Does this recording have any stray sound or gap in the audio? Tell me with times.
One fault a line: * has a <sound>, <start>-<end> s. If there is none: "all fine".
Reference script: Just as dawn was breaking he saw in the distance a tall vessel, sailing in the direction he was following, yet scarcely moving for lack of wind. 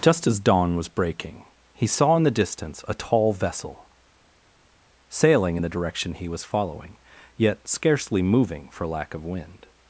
all fine